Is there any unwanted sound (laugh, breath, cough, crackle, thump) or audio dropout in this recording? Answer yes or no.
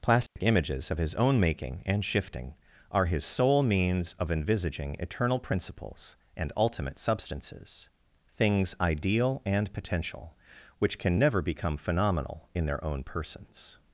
yes